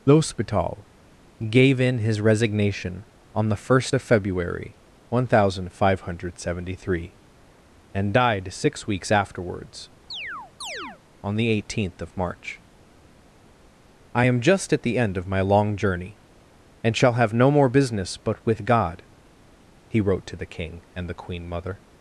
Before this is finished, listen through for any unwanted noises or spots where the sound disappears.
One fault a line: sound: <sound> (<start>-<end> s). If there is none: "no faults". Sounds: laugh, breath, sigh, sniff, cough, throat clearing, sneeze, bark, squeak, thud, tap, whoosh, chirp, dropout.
sound: chirp (10.1-11.0 s)